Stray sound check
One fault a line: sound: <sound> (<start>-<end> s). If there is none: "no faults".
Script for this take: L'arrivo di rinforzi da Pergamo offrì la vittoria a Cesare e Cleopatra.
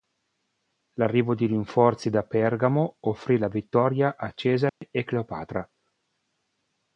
sound: dropout (4.7-4.8 s)